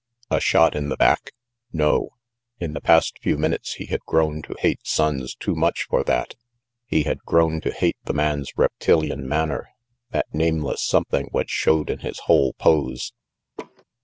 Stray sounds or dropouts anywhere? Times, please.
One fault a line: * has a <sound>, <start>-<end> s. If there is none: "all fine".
* has a laugh, 13.6-13.8 s